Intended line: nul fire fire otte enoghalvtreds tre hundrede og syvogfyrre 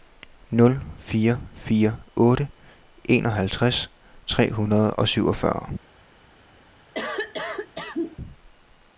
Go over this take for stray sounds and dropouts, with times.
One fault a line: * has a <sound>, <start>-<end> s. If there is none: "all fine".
* has a cough, 6.9-8.2 s